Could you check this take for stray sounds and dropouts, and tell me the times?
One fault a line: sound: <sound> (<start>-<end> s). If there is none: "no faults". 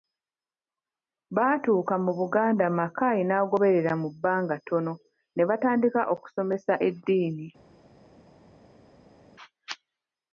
no faults